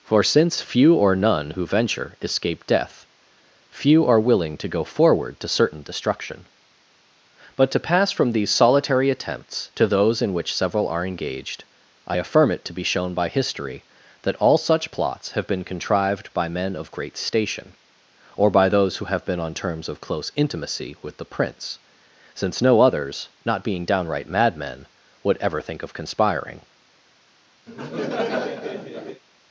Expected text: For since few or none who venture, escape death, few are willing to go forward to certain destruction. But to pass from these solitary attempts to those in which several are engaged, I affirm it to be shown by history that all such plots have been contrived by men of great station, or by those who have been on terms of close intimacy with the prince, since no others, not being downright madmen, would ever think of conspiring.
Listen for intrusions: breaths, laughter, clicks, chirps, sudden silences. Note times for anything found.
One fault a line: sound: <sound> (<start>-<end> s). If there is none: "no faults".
sound: laugh (27.7-29.2 s)